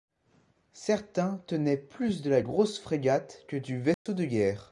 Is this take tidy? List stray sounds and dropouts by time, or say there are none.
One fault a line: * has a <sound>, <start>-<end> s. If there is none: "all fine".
* has a dropout, 3.9-4.1 s